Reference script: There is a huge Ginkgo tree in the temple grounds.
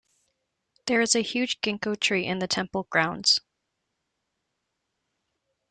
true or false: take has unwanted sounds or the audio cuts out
false